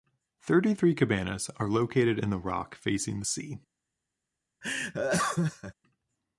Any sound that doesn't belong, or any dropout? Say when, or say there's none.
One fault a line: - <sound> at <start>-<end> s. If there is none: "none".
- laugh at 4.6-5.7 s